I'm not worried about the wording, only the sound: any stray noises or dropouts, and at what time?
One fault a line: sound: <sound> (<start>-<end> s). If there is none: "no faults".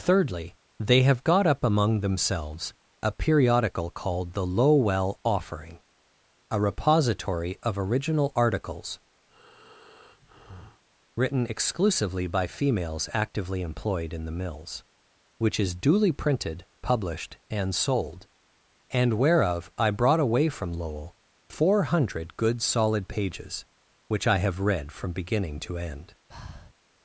sound: breath (9.3-10.8 s)
sound: breath (26.3-26.7 s)